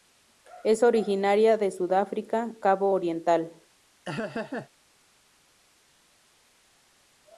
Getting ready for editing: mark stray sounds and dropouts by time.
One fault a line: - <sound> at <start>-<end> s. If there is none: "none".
- laugh at 4.0-4.7 s